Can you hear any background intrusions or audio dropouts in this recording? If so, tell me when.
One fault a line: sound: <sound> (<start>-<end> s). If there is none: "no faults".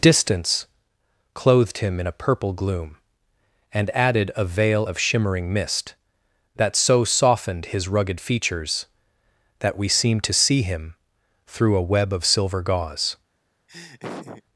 sound: laugh (13.7-14.4 s)